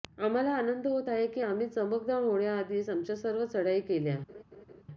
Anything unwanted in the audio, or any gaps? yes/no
yes